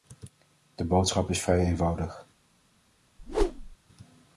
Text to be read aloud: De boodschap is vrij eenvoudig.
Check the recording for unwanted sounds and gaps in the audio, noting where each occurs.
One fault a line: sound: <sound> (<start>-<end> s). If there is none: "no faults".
sound: whoosh (3.2-3.8 s)